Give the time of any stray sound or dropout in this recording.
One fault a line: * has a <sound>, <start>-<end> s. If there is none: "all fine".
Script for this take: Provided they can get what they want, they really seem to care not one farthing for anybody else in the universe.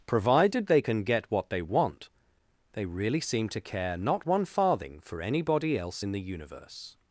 all fine